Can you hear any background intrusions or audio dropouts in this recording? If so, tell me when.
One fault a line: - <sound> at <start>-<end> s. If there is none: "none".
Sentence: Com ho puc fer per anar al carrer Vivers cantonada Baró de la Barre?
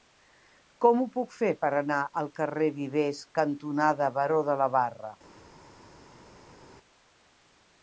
none